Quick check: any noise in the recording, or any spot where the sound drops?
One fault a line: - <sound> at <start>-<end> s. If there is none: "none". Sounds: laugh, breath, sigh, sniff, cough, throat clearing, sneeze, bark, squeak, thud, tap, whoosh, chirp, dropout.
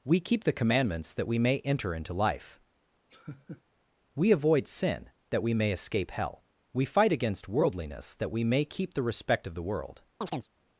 - laugh at 3.1-3.6 s
- chirp at 10.2-10.5 s